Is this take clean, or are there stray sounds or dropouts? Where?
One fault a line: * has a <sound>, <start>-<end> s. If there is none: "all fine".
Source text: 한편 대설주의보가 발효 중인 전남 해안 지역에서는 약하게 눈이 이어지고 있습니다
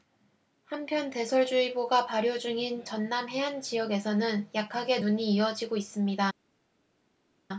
all fine